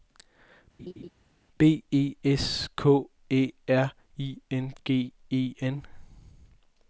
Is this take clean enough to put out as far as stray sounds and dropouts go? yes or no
no